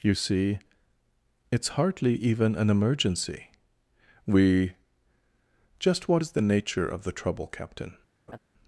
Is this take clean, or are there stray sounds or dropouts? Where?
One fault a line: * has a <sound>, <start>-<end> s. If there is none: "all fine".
* has a laugh, 8.3-8.4 s